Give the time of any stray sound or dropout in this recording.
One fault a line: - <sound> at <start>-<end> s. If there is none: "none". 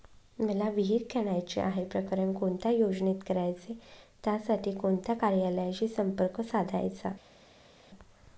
none